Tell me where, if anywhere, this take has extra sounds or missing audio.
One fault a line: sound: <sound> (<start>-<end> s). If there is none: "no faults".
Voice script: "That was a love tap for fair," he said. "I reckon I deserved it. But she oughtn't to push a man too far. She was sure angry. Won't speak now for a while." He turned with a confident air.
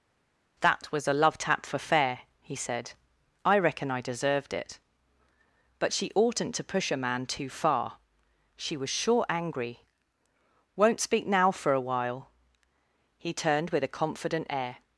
no faults